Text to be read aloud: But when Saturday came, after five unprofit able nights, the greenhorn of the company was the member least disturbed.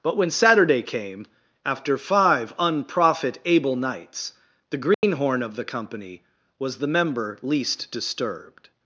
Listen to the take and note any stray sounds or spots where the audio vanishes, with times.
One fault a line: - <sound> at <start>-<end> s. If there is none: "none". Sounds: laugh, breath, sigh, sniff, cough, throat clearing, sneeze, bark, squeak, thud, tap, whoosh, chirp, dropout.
- dropout at 4.9-5.0 s